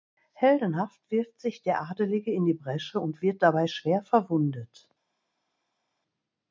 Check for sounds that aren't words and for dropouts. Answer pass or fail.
pass